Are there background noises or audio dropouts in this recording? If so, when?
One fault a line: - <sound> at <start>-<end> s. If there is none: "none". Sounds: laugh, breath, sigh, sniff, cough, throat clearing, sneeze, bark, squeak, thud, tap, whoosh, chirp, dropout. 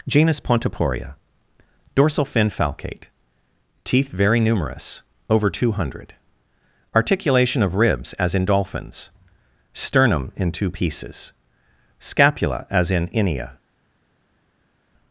none